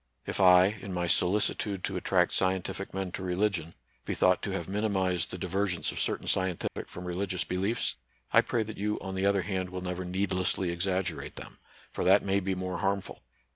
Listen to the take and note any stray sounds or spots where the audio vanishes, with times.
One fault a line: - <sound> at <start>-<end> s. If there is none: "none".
- dropout at 6.7-6.8 s